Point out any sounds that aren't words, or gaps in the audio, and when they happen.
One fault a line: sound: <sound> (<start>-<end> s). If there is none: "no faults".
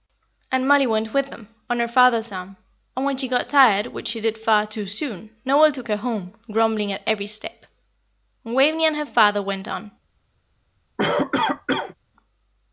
sound: cough (11.0-12.0 s)